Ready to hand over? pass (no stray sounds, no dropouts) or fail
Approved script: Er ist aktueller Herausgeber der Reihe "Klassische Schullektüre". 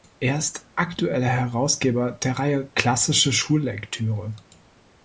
pass